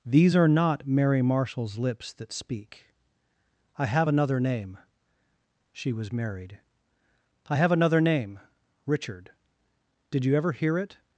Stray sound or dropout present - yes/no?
no